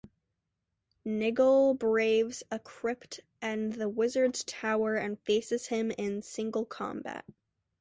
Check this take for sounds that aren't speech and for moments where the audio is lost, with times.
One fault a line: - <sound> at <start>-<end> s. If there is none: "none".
none